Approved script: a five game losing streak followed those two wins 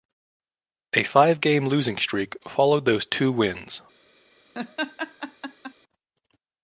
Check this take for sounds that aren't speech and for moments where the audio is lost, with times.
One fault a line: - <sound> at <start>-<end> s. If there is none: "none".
- laugh at 4.5-5.7 s